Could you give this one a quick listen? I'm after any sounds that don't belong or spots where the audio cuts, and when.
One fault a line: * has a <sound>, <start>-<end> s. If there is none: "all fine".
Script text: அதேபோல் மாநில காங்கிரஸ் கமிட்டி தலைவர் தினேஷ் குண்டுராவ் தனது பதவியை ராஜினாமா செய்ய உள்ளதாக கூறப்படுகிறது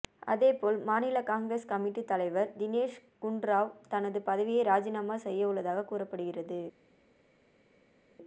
all fine